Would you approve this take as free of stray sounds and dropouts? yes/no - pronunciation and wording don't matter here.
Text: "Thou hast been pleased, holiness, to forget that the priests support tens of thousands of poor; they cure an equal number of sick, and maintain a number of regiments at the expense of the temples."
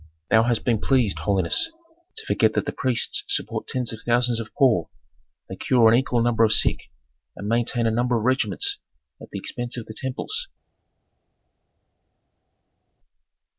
yes